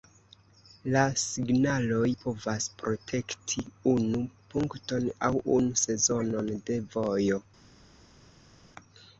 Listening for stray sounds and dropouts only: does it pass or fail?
pass